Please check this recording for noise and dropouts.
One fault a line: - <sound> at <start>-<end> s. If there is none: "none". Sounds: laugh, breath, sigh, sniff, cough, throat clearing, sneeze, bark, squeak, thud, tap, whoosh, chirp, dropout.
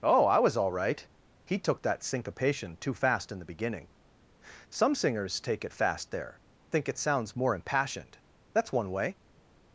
none